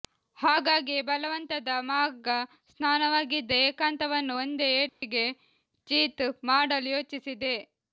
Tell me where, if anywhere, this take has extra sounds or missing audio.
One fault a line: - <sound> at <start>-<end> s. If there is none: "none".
- dropout at 4.9-5.0 s